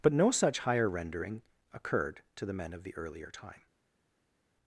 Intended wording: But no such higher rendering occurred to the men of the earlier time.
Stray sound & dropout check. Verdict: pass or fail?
pass